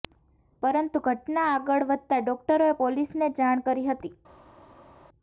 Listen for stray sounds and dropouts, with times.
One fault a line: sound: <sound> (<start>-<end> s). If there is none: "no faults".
no faults